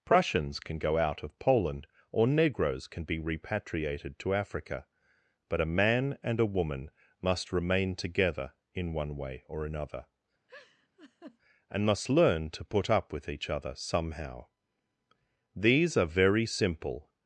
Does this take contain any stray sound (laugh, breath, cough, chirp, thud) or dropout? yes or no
yes